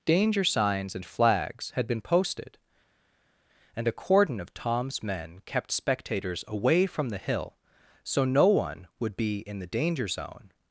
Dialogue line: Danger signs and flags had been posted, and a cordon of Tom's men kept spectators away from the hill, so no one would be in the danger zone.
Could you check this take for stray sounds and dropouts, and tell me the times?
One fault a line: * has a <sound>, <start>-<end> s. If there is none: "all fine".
all fine